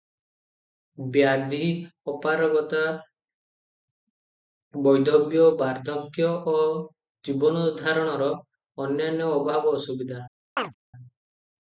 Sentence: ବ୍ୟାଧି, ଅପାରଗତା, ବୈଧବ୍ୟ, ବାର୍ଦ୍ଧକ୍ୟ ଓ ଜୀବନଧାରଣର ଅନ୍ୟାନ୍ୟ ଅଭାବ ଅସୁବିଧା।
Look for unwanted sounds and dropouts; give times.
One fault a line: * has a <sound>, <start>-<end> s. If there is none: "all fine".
* has a chirp, 10.6-10.7 s